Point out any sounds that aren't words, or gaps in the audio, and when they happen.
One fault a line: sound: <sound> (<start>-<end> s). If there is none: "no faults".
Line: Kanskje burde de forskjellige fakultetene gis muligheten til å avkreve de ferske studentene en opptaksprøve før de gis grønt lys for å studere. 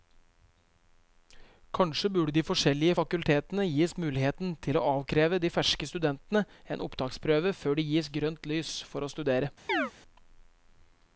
sound: chirp (9.7-9.9 s)